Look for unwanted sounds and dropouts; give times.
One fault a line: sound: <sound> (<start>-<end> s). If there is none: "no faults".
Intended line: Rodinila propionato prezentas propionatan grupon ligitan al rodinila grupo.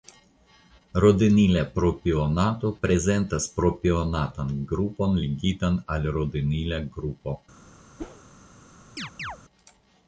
sound: whoosh (8.0-8.2 s)
sound: chirp (9.0-9.4 s)